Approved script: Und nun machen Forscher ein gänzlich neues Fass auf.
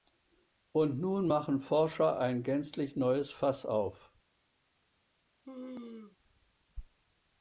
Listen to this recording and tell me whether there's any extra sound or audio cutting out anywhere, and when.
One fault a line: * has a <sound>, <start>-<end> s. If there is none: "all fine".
* has a sneeze, 5.4-6.2 s